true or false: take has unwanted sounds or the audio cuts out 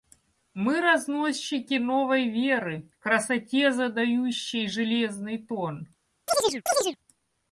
true